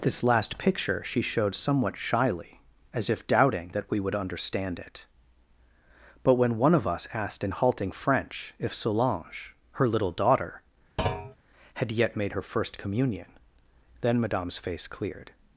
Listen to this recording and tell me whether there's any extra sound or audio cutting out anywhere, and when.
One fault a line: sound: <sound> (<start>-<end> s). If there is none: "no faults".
sound: thud (11.0-11.4 s)